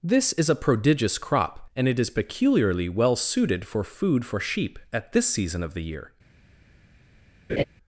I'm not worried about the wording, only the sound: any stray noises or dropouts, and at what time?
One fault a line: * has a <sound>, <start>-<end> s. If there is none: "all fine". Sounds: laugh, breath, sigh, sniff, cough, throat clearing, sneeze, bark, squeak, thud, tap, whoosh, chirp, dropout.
* has a laugh, 7.5-7.6 s